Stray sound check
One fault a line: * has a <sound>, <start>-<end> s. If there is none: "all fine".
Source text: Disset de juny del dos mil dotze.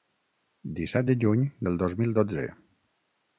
all fine